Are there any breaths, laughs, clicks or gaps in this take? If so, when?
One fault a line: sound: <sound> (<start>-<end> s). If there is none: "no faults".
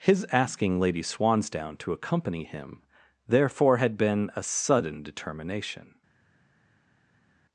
no faults